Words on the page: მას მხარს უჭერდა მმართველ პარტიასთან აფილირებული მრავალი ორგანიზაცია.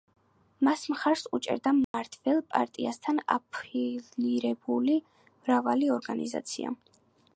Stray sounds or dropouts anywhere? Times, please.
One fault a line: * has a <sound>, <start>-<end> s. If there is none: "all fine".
* has a dropout, 1.8-1.9 s